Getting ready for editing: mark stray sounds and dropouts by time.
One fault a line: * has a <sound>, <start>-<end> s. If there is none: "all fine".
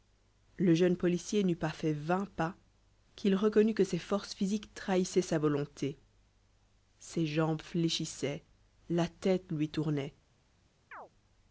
* has a chirp, 10.9-11.1 s